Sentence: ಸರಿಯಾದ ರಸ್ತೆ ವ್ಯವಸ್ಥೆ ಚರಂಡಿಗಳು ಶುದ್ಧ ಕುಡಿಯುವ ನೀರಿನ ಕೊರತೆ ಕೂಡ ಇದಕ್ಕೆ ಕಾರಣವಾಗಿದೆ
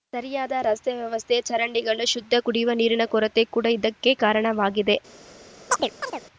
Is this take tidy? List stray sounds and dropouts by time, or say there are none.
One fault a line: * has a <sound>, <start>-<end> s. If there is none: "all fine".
* has a chirp, 5.7-6.2 s